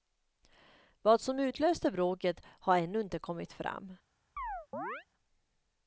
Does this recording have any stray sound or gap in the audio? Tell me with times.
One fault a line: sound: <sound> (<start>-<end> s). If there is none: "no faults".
sound: chirp (4.4-5.1 s)